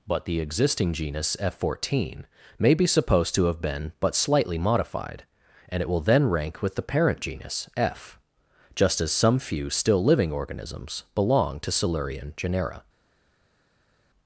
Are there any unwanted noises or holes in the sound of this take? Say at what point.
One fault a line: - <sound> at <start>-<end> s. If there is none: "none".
none